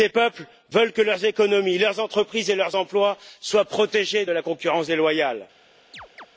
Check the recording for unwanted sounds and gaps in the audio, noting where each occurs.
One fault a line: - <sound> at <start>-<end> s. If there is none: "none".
- chirp at 5.9-6.3 s